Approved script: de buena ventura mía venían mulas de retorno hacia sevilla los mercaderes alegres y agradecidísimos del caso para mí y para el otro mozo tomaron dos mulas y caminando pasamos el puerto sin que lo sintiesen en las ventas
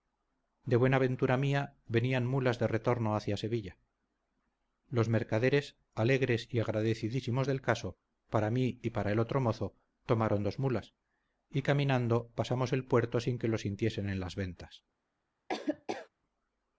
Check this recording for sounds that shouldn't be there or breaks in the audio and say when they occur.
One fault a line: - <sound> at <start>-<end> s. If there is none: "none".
- laugh at 15.5-16.1 s